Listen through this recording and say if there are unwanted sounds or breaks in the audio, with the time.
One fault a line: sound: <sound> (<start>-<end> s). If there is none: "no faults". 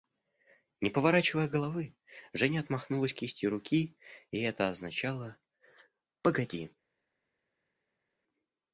no faults